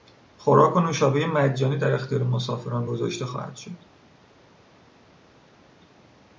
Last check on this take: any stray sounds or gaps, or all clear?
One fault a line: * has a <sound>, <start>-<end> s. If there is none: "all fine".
all fine